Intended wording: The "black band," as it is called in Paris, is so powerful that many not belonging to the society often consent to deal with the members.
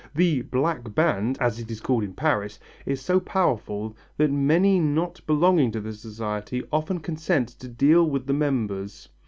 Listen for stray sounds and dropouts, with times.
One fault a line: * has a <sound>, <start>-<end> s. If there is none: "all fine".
all fine